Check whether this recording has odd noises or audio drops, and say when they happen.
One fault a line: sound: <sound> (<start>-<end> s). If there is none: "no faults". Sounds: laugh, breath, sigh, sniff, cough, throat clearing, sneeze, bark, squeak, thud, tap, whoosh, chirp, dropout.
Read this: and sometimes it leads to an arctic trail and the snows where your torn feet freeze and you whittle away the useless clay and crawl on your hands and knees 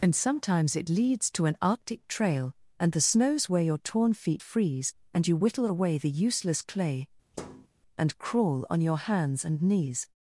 sound: thud (7.3-7.7 s)